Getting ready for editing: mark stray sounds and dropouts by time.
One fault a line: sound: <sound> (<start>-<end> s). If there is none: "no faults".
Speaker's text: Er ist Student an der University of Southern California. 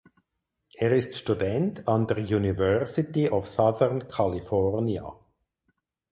no faults